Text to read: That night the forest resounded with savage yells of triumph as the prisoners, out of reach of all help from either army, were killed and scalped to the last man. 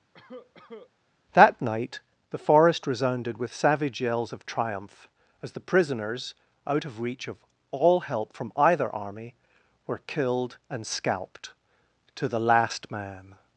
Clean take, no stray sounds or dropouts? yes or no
no